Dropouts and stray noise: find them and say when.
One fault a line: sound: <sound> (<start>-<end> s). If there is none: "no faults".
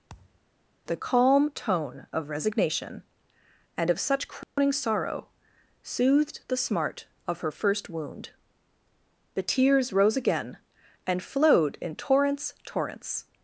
sound: thud (0.1-0.4 s)
sound: dropout (4.4-4.6 s)